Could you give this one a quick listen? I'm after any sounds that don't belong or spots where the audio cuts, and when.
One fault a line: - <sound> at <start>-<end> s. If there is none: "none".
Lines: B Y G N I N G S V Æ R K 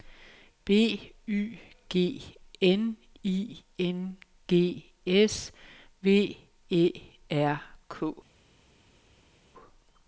none